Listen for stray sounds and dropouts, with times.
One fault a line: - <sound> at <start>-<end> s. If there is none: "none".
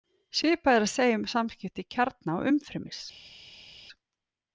none